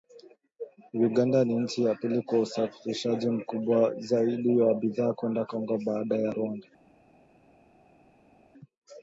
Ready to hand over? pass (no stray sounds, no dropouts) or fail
pass